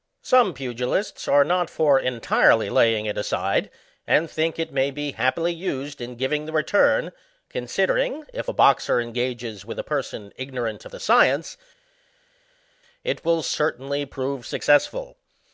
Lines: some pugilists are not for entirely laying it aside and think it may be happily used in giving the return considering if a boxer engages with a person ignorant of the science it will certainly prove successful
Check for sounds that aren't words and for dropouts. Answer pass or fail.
pass